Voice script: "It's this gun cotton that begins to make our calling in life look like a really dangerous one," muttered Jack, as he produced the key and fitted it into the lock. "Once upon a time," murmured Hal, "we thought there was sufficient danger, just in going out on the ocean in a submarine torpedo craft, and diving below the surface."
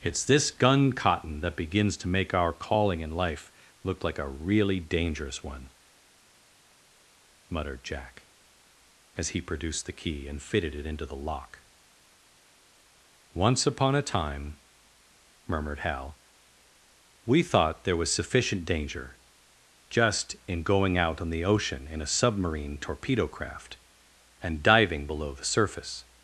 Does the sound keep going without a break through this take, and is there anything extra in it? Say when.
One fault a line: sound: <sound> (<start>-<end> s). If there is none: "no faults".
no faults